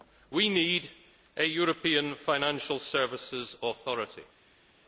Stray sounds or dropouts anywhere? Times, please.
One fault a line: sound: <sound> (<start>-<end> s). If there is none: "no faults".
no faults